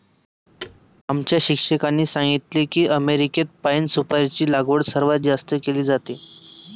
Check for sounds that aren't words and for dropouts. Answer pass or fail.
fail